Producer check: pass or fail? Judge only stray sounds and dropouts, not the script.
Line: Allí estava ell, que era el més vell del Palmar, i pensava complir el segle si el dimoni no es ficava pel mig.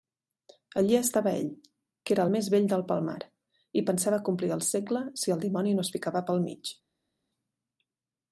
pass